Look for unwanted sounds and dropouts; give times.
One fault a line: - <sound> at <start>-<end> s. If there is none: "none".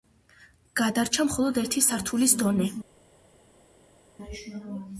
none